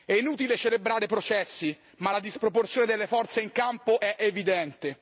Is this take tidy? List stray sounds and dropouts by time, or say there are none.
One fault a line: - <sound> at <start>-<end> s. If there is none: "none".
none